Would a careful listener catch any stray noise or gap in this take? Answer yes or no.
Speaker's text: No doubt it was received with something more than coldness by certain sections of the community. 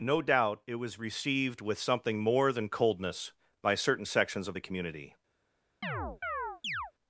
yes